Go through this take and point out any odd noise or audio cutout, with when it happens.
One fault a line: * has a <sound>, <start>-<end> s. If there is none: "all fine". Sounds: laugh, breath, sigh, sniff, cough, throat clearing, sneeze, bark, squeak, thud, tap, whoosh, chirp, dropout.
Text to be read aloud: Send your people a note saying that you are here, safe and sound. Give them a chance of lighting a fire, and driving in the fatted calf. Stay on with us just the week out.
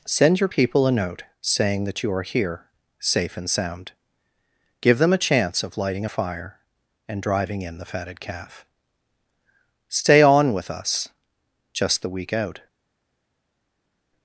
all fine